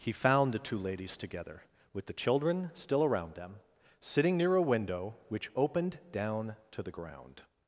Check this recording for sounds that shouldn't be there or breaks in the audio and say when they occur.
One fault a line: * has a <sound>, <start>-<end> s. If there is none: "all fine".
all fine